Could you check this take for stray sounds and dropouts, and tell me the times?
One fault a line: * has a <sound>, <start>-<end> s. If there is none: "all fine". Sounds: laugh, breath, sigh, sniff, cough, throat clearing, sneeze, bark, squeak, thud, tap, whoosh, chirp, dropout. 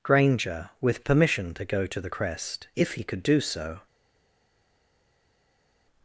all fine